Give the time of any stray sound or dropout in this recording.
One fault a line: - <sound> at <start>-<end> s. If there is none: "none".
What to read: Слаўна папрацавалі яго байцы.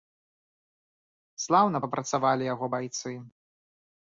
none